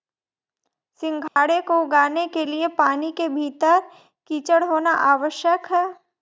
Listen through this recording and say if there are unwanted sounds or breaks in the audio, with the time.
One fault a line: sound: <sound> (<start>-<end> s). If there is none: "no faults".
sound: dropout (1.3-1.4 s)